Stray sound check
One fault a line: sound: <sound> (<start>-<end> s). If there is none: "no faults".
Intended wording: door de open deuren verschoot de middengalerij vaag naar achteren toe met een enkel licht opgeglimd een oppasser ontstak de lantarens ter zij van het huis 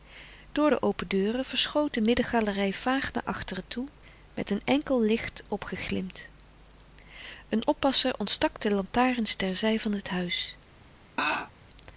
sound: laugh (11.2-11.5 s)